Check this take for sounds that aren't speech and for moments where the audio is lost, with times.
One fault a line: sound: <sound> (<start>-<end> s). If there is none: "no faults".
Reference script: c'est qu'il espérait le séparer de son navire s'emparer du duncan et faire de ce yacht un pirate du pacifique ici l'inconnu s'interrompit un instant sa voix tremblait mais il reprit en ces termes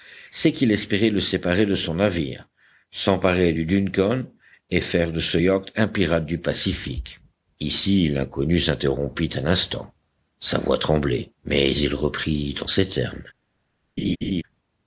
sound: laugh (14.0-14.4 s)